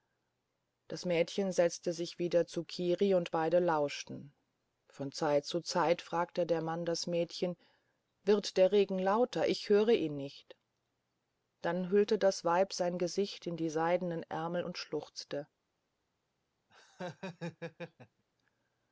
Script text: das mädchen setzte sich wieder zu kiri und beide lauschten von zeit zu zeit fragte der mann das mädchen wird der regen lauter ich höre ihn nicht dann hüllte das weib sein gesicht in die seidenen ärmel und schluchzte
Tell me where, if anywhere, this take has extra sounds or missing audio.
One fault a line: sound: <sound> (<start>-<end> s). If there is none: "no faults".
sound: laugh (16.7-18.2 s)